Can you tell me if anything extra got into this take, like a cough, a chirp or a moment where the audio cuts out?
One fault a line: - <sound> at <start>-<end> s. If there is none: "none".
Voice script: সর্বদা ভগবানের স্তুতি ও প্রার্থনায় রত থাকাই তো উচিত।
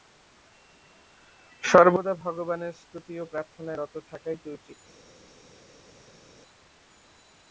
none